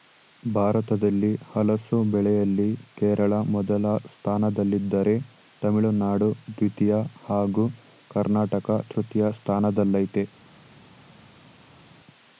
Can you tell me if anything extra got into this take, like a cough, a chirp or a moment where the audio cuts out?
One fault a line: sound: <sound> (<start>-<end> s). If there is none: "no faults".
no faults